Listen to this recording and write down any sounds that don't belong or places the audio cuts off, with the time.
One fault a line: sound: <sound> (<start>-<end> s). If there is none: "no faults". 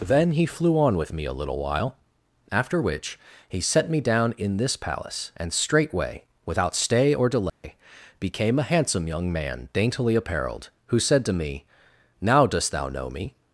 sound: dropout (7.5-7.6 s)